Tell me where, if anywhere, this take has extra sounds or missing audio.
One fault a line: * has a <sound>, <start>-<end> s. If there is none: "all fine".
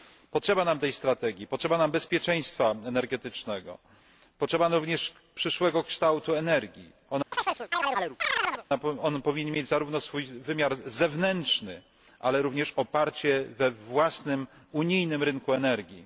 * has a chirp, 7.3-8.7 s